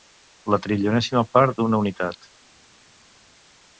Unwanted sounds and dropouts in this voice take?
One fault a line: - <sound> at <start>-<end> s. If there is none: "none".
none